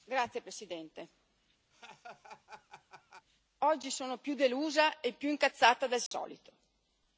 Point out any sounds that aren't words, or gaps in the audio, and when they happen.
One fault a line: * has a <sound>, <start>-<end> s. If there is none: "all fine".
* has a laugh, 1.7-3.3 s
* has a dropout, 6.1-6.1 s